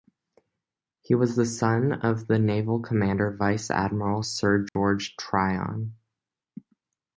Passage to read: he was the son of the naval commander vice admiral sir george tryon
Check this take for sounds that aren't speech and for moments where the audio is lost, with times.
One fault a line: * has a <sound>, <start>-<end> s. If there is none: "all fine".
* has a dropout, 4.7-4.8 s